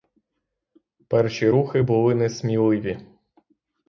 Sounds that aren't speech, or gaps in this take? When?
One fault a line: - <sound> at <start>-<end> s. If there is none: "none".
none